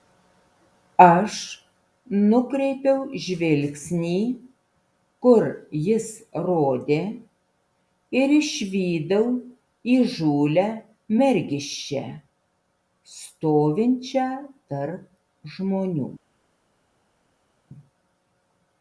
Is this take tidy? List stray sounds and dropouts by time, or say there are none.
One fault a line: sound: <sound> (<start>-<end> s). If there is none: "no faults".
no faults